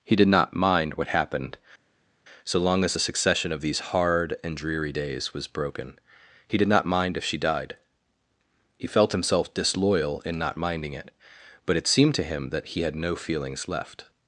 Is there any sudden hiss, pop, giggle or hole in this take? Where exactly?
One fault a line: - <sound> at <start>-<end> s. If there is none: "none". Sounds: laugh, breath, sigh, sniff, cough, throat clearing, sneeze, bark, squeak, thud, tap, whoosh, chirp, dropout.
none